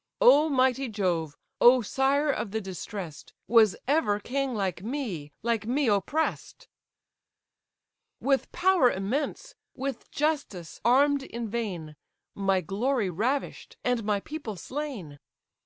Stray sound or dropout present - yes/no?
no